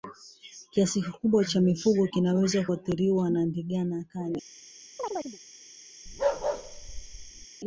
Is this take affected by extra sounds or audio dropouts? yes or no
yes